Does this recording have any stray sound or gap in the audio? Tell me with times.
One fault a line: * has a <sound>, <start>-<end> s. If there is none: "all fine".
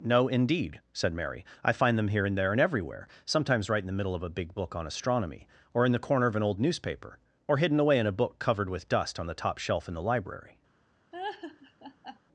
* has a laugh, 11.1-12.2 s